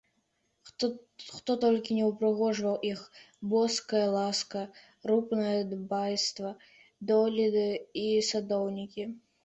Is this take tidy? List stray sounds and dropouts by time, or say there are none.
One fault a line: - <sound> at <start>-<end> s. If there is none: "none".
none